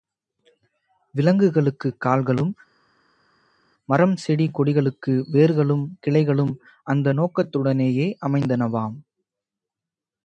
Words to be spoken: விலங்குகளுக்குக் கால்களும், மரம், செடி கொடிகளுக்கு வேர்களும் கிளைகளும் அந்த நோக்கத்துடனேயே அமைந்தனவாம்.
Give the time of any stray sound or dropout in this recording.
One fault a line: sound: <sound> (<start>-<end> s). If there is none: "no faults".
no faults